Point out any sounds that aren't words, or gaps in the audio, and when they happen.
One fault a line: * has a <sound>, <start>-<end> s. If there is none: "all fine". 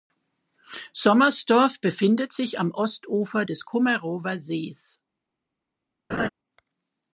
* has a laugh, 6.1-6.3 s